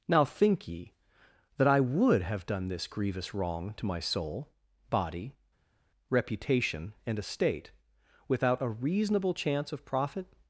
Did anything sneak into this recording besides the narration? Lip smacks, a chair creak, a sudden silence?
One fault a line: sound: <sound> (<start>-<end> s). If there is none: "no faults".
no faults